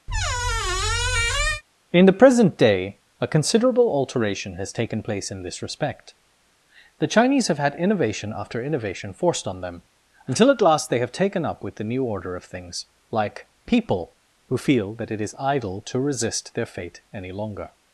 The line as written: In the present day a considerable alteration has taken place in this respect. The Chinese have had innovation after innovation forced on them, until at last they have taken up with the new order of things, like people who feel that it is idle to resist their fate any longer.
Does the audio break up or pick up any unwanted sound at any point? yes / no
yes